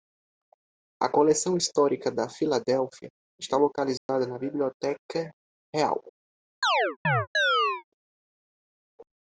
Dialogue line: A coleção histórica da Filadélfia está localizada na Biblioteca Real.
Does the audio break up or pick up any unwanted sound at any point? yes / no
yes